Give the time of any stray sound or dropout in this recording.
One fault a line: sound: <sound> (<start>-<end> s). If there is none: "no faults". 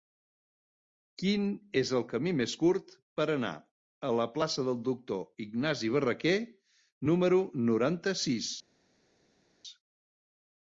no faults